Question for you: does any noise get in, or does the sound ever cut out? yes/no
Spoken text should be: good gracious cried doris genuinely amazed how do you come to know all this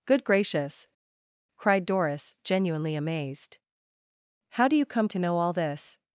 no